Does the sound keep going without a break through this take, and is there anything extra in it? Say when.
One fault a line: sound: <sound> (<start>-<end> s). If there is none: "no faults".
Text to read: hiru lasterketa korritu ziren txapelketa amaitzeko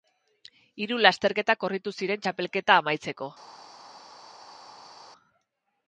no faults